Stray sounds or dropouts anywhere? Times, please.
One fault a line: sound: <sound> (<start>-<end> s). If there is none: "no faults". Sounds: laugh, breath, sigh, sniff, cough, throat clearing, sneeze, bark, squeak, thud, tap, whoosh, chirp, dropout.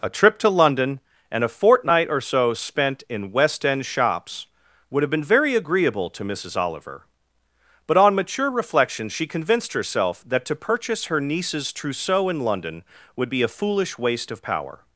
no faults